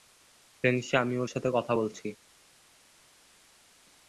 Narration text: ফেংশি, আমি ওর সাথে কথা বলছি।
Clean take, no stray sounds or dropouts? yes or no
yes